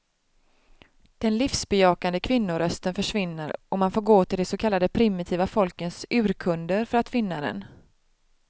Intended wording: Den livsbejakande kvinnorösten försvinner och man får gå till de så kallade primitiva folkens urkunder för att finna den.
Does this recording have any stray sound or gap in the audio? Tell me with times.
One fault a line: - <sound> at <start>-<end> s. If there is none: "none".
none